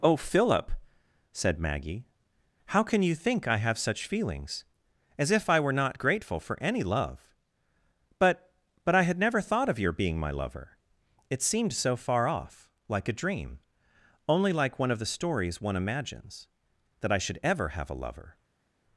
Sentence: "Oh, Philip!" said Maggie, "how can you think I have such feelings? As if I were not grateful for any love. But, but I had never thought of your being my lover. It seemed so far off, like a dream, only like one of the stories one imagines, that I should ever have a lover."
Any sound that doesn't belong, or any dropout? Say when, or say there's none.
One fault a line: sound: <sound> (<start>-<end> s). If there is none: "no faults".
no faults